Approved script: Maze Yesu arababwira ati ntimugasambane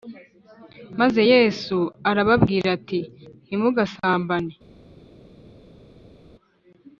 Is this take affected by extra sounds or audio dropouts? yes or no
no